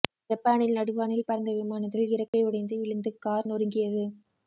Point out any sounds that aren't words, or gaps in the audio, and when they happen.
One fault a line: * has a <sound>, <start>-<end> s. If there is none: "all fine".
* has a dropout, 2.3-2.3 s